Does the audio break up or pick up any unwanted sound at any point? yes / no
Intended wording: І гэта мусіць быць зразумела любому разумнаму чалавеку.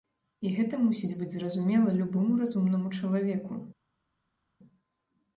no